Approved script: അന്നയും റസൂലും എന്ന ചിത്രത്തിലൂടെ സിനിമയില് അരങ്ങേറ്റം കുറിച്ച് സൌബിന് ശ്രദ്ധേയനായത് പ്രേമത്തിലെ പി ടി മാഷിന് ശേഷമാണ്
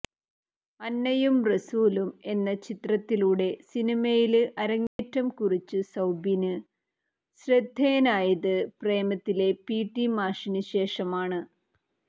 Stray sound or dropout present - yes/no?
yes